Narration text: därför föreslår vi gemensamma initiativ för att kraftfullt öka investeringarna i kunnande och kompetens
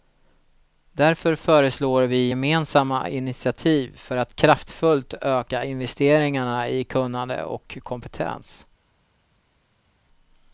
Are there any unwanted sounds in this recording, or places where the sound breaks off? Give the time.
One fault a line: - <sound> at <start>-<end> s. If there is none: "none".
none